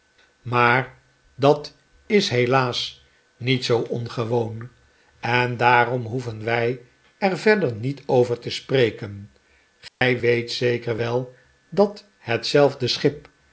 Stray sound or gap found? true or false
true